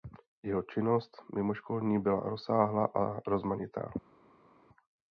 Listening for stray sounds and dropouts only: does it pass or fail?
pass